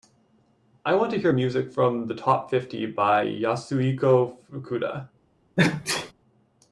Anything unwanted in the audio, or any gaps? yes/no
yes